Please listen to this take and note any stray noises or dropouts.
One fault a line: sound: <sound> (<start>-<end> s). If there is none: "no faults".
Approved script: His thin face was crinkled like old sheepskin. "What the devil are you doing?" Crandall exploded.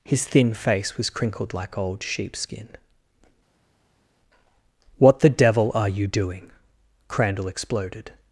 no faults